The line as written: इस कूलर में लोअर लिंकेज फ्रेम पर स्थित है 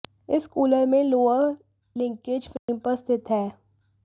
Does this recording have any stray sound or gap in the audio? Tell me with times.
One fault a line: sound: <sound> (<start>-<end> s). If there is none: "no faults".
sound: dropout (2.6-2.7 s)